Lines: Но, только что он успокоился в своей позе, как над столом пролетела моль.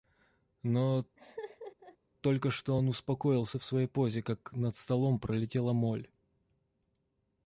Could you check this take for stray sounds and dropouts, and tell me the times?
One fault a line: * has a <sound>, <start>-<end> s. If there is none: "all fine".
* has a laugh, 1.2-2.0 s